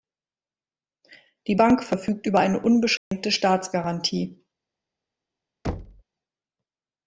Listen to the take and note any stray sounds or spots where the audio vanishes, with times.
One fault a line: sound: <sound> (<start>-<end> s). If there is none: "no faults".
sound: dropout (3.0-3.1 s)
sound: thud (5.6-6.0 s)